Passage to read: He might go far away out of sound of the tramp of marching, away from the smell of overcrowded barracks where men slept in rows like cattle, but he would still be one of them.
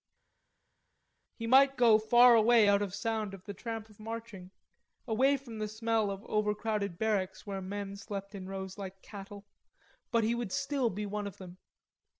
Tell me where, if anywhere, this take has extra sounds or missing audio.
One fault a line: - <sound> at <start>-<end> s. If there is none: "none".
none